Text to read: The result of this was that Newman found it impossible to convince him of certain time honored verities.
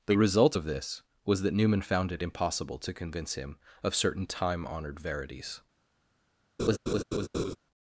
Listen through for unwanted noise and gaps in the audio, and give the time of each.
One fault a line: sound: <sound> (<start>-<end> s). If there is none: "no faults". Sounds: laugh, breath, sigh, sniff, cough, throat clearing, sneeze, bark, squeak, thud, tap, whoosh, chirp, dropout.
sound: laugh (6.6-7.6 s)